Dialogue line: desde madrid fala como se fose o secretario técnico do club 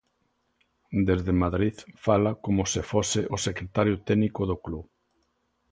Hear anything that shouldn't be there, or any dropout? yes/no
no